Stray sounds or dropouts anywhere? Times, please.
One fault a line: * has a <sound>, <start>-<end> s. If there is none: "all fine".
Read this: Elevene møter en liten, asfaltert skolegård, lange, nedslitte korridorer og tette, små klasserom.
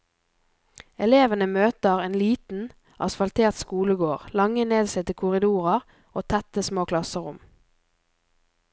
all fine